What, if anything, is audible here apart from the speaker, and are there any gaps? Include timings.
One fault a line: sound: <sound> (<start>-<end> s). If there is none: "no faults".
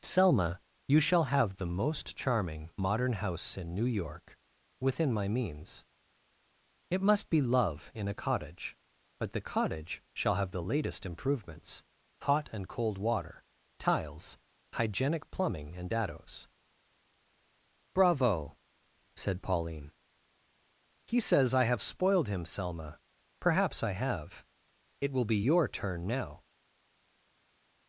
no faults